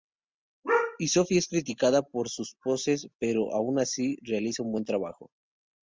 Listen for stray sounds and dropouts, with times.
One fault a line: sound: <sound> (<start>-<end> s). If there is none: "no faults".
no faults